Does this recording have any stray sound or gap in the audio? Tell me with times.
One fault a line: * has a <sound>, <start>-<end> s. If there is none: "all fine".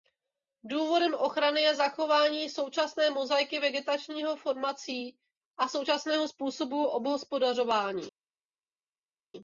all fine